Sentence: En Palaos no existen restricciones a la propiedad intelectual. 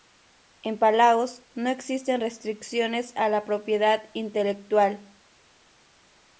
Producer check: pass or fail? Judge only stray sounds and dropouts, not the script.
pass